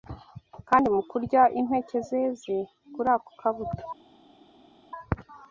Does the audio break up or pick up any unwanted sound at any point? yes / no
no